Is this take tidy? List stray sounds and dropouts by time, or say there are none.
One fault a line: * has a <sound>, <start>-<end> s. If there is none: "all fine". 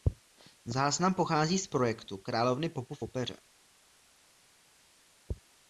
all fine